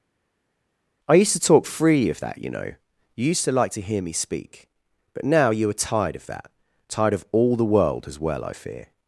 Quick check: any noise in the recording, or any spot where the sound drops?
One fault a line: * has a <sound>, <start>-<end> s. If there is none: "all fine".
all fine